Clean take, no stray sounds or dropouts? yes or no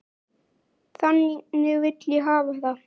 yes